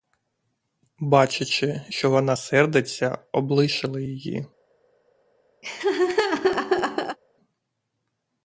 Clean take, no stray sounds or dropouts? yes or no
no